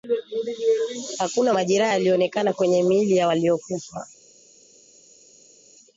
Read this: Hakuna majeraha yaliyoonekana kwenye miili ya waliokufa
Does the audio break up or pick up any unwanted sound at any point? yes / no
no